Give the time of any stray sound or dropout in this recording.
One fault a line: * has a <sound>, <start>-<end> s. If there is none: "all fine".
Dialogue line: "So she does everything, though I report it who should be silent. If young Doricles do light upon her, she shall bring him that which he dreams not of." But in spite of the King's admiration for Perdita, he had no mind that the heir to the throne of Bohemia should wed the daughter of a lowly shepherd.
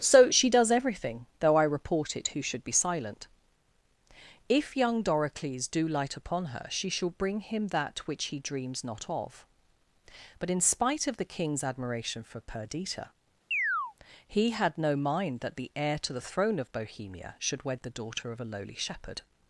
* has a chirp, 13.5-13.9 s